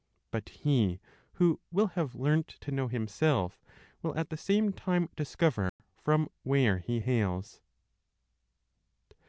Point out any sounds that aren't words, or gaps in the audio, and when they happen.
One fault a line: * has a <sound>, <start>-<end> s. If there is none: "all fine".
* has a dropout, 5.7-5.8 s